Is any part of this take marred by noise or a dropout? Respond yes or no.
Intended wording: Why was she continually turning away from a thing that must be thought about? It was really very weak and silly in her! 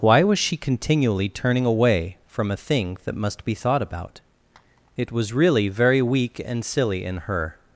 no